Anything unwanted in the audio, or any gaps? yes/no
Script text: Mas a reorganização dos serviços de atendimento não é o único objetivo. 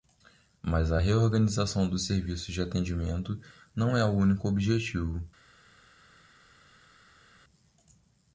no